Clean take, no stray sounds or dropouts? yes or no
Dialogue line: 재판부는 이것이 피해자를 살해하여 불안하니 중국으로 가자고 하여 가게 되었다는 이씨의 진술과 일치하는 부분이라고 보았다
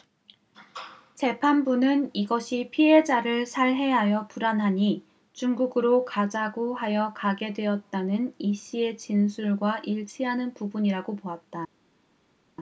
yes